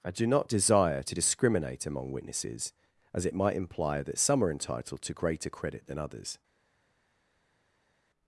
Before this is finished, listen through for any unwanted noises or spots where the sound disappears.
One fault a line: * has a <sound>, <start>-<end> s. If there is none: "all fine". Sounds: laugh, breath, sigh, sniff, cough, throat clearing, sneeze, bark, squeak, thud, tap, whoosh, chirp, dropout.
all fine